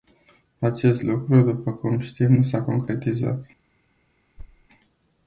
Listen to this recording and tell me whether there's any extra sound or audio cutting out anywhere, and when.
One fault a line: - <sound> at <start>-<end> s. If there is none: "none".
- thud at 4.4-4.7 s